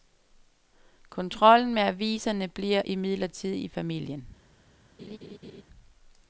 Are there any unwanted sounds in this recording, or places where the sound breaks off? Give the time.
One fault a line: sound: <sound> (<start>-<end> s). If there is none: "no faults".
sound: laugh (5.0-5.6 s)